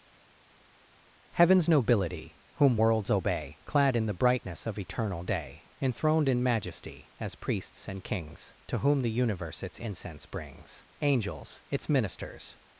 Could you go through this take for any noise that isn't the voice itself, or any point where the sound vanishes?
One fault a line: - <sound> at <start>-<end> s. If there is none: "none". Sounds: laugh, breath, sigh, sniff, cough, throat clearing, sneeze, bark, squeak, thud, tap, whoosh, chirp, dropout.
none